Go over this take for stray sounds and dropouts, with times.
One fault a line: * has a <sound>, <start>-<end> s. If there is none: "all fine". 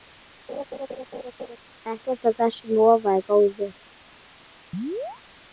* has a laugh, 0.5-1.6 s
* has a chirp, 4.7-5.2 s